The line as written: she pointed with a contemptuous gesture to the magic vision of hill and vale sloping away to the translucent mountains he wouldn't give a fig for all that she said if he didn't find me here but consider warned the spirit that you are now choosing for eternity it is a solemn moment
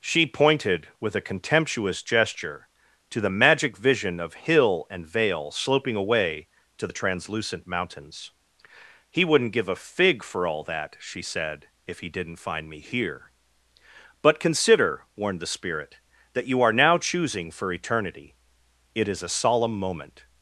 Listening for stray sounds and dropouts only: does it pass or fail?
pass